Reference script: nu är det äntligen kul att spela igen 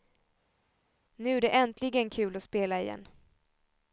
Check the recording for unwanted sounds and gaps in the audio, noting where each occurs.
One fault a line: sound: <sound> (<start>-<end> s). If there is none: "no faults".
no faults